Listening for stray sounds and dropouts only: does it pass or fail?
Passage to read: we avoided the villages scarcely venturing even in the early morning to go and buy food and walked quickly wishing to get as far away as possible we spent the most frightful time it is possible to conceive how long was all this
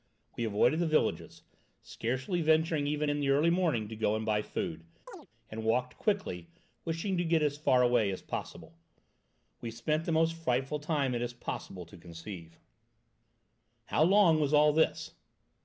fail